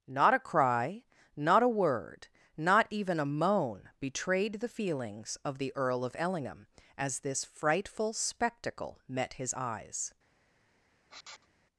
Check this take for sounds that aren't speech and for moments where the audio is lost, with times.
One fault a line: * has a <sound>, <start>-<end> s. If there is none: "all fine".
* has a sniff, 11.1-11.5 s